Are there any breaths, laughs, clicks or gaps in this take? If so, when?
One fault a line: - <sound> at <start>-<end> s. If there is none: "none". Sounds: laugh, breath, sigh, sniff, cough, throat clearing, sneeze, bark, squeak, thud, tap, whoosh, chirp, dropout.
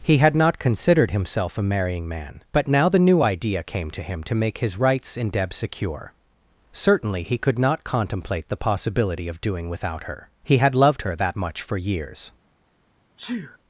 - sneeze at 13.2-13.6 s